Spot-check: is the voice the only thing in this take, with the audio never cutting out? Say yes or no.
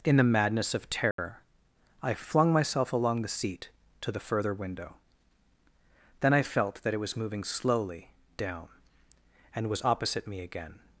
no